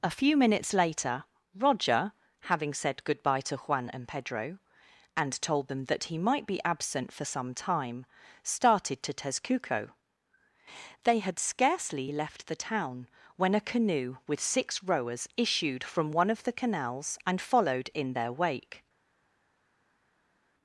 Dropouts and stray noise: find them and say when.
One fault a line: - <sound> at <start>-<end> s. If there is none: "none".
none